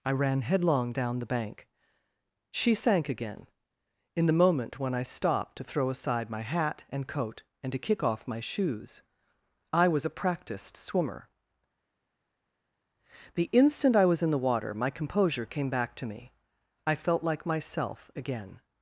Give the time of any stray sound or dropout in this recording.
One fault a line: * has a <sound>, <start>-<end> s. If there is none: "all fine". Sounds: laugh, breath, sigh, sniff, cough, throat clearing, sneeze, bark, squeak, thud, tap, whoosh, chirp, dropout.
all fine